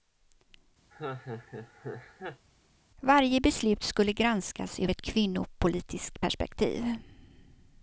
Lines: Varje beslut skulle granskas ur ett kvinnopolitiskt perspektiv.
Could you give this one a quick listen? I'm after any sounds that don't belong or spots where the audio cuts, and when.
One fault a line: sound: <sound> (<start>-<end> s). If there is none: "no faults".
sound: laugh (0.9-2.5 s)